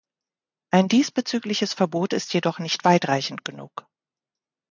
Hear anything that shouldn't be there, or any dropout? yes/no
no